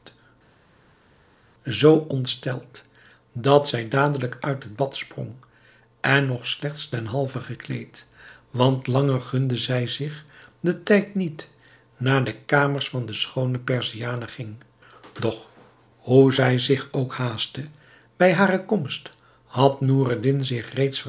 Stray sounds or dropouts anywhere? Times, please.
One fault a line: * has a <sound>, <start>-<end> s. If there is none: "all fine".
all fine